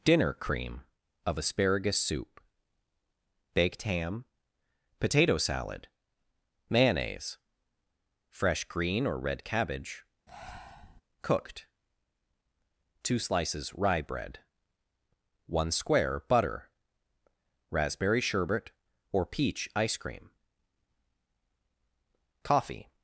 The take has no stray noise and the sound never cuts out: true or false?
false